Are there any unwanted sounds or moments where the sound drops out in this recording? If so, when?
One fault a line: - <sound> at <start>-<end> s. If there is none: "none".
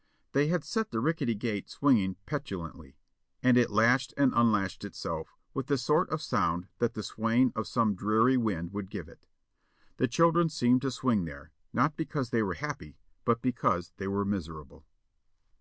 none